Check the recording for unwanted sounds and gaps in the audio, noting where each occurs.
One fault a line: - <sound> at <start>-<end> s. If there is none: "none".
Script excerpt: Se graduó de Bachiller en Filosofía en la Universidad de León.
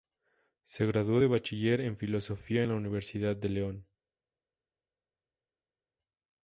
none